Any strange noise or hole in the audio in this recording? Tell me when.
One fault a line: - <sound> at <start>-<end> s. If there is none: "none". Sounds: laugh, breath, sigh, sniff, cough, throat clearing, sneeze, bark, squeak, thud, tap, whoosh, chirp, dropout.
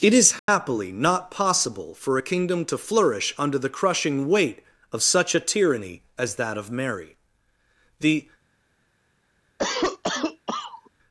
- dropout at 0.4-0.5 s
- cough at 9.6-10.9 s